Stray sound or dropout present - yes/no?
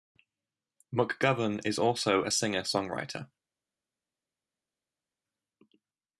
no